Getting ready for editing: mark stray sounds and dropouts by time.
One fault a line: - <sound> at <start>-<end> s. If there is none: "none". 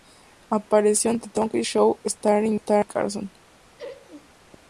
- laugh at 3.8-4.3 s